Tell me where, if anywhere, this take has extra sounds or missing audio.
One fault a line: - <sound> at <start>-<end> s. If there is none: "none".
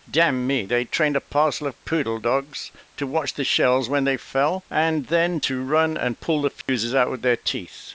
- dropout at 6.6-6.7 s